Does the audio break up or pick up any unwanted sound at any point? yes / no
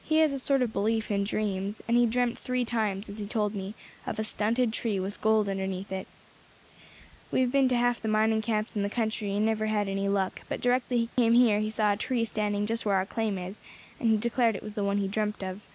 yes